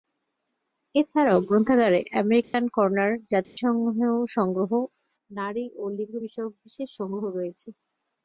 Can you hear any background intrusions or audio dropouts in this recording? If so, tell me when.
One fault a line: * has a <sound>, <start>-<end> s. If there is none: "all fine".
* has a dropout, 2.4-2.5 s
* has a dropout, 3.4-3.6 s